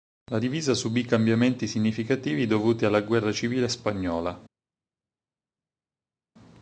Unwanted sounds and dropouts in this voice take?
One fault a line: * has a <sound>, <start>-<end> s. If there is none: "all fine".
all fine